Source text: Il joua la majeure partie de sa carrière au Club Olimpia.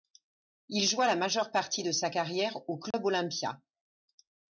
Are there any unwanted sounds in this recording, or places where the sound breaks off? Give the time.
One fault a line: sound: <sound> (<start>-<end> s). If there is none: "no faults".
sound: dropout (2.9-2.9 s)